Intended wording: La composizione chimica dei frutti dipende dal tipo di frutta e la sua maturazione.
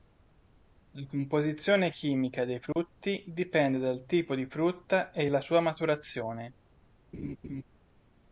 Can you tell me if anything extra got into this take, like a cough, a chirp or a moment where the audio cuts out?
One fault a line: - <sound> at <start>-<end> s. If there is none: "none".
- dropout at 2.7-2.8 s
- laugh at 7.1-7.6 s